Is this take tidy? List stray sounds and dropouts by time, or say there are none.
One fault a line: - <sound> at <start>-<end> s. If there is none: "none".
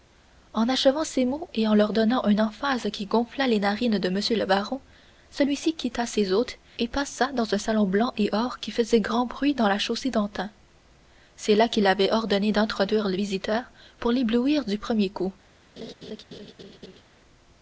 - laugh at 15.8-17.0 s